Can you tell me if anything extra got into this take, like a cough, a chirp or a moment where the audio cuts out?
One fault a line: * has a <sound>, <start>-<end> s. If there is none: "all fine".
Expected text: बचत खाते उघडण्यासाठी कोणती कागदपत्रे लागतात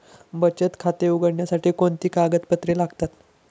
all fine